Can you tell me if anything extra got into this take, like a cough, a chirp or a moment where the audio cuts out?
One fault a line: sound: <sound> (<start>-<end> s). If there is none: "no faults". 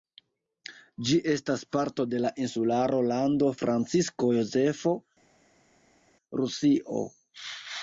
no faults